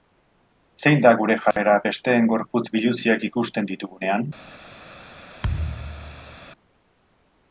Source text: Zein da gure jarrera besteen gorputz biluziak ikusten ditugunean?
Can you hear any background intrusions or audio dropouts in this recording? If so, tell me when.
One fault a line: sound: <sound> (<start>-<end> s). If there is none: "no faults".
sound: dropout (1.5-1.6 s)
sound: thud (5.4-6.4 s)